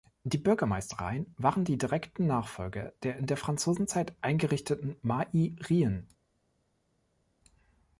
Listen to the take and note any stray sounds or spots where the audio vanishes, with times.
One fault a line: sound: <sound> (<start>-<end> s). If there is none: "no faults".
no faults